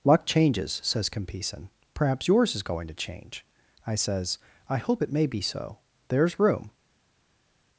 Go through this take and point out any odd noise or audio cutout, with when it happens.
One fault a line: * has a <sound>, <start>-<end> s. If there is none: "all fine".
all fine